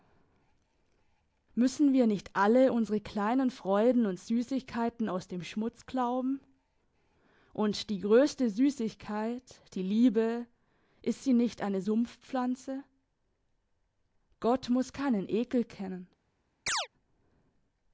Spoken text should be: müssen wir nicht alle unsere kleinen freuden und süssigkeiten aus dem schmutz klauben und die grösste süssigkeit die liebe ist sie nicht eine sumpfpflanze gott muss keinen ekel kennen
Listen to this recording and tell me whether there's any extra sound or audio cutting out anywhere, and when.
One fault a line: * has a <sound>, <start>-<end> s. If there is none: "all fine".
* has a chirp, 16.7-16.9 s